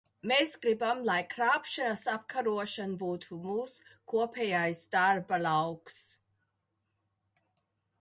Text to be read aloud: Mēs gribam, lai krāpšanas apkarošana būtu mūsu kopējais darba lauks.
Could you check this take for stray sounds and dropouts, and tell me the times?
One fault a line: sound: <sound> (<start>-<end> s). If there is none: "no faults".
no faults